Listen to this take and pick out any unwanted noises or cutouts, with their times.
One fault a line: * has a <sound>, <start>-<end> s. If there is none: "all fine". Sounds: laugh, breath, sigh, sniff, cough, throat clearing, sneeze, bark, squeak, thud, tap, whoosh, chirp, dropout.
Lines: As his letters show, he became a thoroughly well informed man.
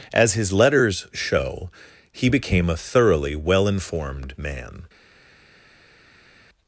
all fine